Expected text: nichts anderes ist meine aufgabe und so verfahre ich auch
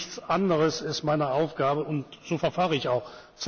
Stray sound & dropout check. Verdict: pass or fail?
pass